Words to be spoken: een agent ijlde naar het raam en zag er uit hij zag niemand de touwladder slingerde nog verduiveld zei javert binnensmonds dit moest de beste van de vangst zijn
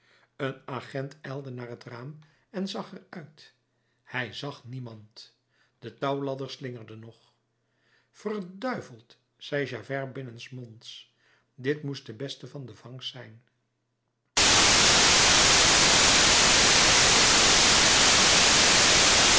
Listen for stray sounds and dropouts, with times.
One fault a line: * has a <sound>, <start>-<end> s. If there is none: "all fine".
all fine